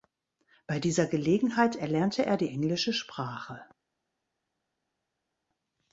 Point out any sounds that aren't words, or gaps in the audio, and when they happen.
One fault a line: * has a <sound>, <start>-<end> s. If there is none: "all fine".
all fine